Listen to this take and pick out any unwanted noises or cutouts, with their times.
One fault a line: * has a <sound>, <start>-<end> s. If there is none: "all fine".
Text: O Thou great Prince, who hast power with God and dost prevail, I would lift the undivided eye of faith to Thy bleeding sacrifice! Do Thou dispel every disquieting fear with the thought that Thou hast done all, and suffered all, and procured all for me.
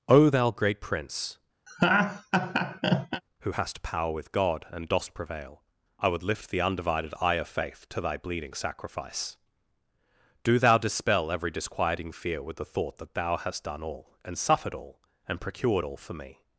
* has a laugh, 1.7-3.2 s